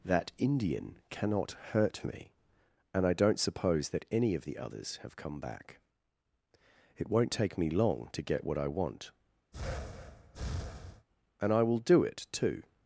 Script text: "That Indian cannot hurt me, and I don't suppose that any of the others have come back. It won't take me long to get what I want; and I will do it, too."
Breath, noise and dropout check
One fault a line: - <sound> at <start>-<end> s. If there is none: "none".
- breath at 9.5-11.1 s